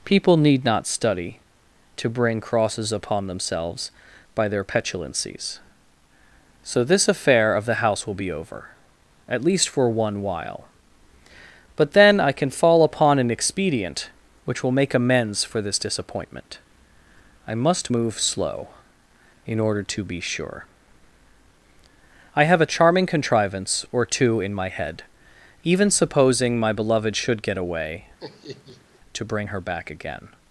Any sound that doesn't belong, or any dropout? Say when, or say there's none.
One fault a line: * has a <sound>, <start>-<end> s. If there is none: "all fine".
* has a laugh, 28.2-29.0 s